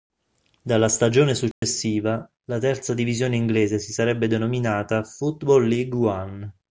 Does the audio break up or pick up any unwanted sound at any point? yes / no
yes